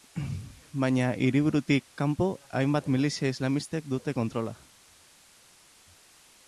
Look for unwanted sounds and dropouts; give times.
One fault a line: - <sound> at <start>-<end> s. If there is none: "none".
none